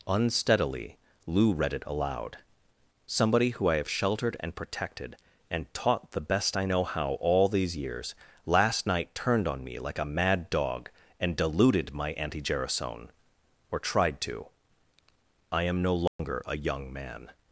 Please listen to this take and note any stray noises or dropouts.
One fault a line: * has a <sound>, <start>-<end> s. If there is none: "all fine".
* has a dropout, 16.1-16.2 s